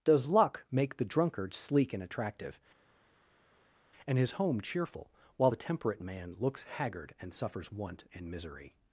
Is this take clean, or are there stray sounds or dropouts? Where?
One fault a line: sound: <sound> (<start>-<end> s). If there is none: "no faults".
no faults